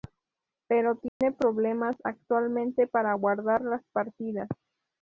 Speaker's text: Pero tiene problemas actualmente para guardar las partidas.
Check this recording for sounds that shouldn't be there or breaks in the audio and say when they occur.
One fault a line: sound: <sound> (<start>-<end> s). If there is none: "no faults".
sound: dropout (1.1-1.2 s)